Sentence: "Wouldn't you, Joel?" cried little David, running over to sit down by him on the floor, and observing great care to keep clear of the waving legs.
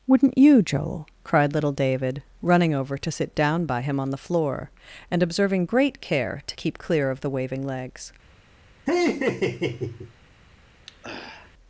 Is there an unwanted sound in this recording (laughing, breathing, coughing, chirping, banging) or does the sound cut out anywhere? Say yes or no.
yes